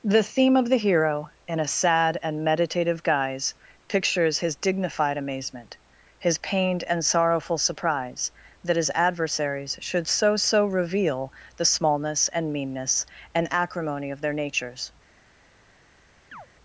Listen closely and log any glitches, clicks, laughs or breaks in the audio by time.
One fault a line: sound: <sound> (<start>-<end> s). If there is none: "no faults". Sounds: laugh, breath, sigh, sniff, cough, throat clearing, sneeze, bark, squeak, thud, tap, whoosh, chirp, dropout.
sound: chirp (16.3-16.5 s)